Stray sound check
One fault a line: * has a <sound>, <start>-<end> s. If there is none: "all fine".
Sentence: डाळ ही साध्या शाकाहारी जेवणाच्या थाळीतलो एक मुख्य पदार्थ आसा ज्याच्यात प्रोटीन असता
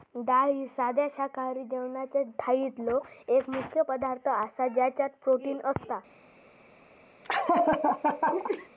* has a laugh, 7.2-8.7 s